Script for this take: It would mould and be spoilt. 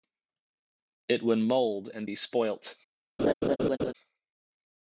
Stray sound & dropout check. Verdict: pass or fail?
fail